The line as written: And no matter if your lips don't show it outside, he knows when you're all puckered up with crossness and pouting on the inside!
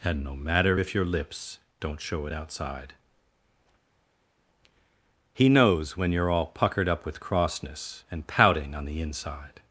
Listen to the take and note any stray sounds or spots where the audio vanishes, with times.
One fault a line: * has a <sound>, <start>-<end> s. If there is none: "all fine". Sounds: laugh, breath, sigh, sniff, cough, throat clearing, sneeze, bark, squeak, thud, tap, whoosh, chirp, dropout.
all fine